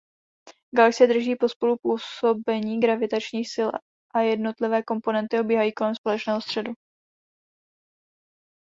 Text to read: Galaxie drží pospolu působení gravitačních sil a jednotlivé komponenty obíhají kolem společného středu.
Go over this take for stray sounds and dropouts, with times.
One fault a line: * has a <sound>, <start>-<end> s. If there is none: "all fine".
all fine